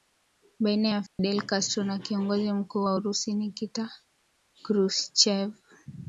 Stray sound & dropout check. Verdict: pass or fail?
fail